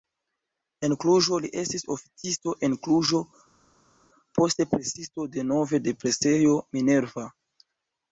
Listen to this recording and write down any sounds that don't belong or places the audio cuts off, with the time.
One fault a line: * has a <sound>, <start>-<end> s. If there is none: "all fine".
all fine